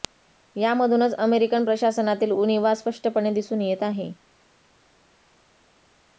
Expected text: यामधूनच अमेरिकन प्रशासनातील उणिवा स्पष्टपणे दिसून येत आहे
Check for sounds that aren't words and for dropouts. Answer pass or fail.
pass